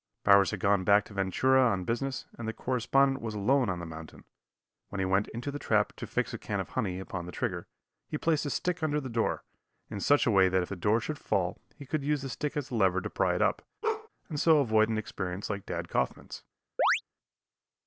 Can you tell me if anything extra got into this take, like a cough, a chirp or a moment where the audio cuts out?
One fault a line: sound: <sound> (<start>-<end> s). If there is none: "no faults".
sound: bark (13.8-14.1 s)
sound: chirp (16.8-17.0 s)